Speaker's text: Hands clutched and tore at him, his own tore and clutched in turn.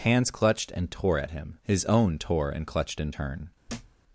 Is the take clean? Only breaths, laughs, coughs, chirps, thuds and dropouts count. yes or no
no